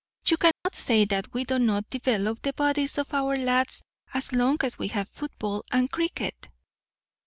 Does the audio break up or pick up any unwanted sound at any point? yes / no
yes